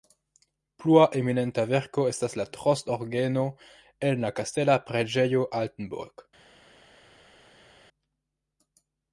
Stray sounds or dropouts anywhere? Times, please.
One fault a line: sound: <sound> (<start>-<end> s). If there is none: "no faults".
no faults